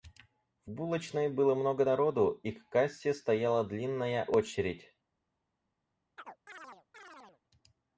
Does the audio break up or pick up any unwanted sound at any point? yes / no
yes